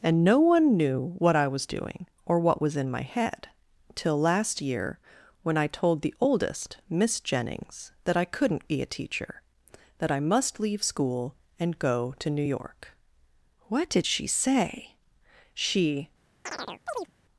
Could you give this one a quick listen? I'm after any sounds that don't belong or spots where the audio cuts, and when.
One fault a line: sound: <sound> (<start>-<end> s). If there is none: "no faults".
sound: chirp (16.5-17.1 s)